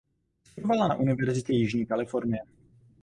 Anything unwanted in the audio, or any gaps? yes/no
no